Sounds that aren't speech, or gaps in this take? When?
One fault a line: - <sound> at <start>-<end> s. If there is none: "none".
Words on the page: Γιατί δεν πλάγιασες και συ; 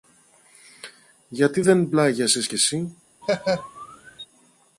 - laugh at 3.2-4.3 s